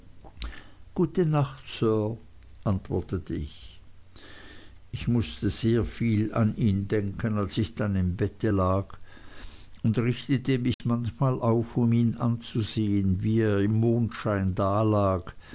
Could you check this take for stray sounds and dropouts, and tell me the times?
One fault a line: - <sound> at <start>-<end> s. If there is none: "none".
- dropout at 10.7-10.8 s